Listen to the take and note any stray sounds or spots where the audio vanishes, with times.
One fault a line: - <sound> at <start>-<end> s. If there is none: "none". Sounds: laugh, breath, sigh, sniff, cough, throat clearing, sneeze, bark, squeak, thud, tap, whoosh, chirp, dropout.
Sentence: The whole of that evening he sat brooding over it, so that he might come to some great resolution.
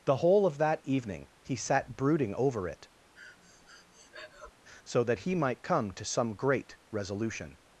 - breath at 3.1-4.5 s